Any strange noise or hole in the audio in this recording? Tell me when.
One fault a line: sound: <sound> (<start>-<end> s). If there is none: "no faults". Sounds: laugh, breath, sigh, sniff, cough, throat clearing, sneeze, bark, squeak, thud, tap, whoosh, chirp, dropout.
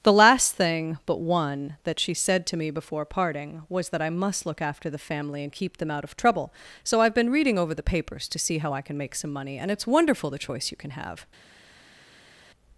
no faults